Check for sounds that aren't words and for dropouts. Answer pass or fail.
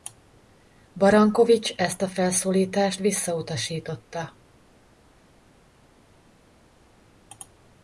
pass